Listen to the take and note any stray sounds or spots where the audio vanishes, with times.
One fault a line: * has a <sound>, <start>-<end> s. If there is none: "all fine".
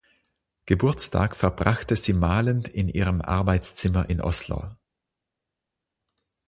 all fine